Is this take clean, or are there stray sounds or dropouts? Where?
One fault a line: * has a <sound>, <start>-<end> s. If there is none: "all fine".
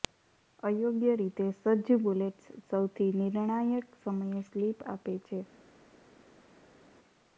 all fine